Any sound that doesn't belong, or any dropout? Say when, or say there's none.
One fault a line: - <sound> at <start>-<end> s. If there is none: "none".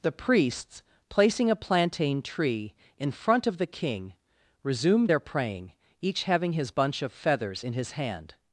none